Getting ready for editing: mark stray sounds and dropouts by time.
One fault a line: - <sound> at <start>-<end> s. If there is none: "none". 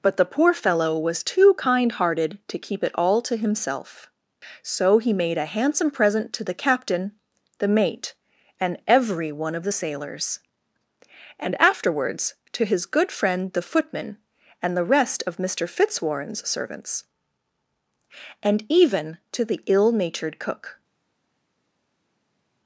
none